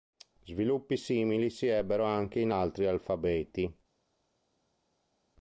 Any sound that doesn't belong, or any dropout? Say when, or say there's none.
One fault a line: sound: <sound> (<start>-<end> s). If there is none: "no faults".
no faults